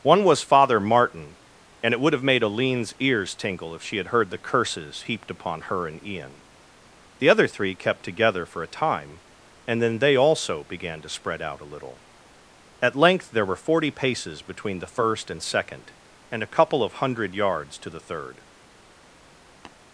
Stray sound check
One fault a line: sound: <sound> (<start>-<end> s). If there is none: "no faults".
sound: tap (19.6-19.8 s)